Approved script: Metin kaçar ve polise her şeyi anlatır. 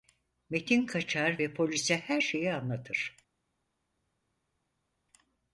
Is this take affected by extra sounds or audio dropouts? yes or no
no